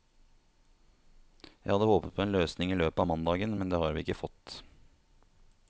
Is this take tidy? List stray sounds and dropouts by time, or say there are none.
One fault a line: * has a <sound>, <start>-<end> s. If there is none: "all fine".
all fine